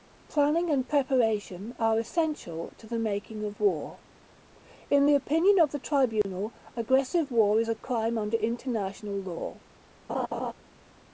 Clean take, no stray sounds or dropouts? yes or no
no